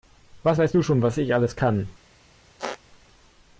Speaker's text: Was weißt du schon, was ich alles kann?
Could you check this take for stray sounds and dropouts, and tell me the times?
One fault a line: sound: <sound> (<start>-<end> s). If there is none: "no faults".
sound: squeak (2.6-2.8 s)